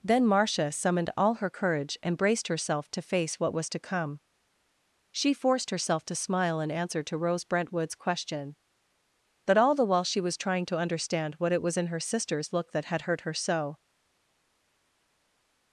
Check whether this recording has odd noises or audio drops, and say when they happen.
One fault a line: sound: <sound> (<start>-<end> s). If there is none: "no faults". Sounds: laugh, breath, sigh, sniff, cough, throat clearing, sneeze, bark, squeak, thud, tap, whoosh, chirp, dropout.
no faults